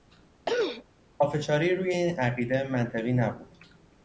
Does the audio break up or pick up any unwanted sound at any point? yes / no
yes